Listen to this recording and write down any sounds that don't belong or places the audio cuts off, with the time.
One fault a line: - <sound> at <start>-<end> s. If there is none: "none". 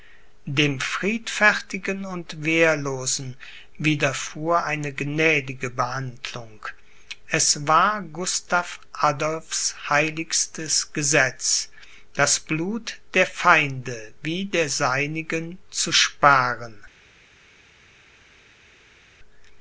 none